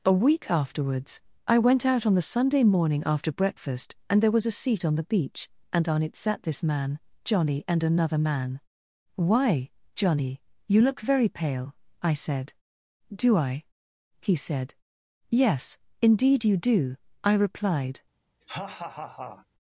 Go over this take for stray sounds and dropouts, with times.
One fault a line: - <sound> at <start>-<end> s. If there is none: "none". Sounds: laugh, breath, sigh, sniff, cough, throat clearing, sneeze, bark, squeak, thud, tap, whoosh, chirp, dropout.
- laugh at 18.4-19.5 s